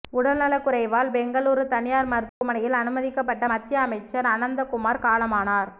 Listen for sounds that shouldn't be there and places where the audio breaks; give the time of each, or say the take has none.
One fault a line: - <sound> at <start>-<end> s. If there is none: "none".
- dropout at 2.3-2.4 s